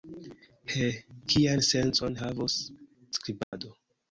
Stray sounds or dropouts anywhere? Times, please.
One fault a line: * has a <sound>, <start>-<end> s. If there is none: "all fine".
* has a dropout, 3.4-3.5 s